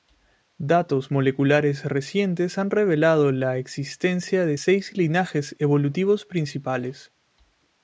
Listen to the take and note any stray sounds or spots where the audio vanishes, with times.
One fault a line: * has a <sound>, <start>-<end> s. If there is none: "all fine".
all fine